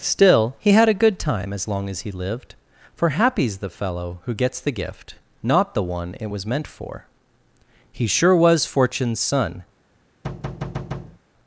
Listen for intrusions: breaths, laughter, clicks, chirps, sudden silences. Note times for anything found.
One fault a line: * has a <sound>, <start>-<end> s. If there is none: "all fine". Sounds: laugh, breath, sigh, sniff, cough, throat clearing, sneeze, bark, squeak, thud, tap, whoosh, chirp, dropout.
* has a thud, 10.2-11.2 s